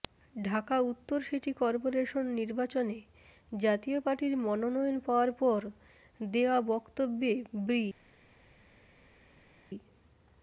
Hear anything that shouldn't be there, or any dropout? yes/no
no